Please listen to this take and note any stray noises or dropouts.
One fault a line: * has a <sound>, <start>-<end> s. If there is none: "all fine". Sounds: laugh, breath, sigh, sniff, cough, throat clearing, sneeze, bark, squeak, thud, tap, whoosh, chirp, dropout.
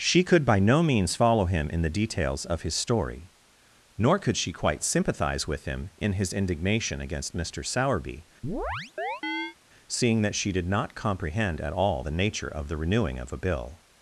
* has a chirp, 8.4-9.6 s